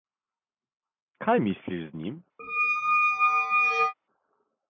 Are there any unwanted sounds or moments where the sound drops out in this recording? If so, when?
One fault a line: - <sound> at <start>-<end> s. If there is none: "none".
- squeak at 2.4-3.9 s